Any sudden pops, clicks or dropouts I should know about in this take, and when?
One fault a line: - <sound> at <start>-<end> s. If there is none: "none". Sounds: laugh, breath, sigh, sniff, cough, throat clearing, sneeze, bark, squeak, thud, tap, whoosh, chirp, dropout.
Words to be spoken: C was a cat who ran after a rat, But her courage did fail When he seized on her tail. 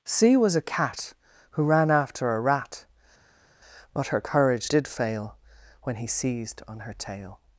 none